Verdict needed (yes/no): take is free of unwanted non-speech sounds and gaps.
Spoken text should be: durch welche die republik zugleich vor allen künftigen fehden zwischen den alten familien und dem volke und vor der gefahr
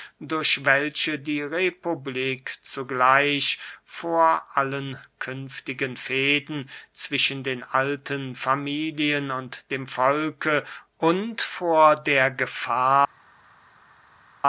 yes